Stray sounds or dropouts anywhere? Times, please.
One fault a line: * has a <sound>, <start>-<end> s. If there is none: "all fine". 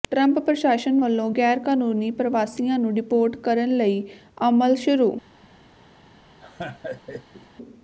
* has a laugh, 6.4-7.5 s